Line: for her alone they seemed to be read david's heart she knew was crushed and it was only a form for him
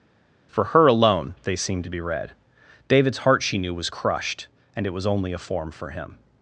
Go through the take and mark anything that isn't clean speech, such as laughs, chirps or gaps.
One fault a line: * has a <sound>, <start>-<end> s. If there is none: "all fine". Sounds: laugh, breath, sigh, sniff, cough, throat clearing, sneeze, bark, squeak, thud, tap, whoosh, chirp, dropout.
all fine